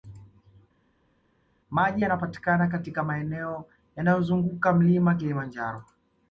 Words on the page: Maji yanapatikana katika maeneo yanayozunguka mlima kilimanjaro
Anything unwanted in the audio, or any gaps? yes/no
no